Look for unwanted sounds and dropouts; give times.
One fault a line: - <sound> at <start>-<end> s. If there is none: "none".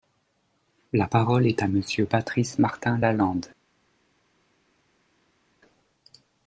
none